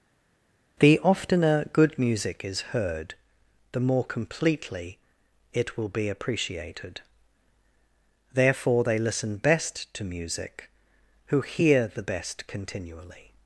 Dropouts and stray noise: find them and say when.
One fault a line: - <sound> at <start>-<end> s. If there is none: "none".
none